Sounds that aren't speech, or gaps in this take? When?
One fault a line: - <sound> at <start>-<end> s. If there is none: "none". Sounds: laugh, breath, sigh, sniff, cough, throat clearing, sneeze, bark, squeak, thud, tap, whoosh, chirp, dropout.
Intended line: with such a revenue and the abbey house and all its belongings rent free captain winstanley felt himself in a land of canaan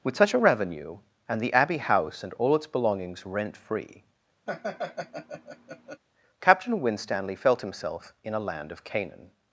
- laugh at 4.5-6.0 s